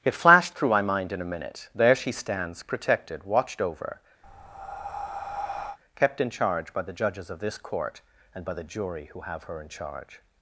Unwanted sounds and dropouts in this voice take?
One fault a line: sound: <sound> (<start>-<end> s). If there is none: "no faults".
sound: breath (4.2-5.8 s)